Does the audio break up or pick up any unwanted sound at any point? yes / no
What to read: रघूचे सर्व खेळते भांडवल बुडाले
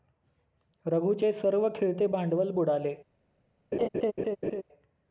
yes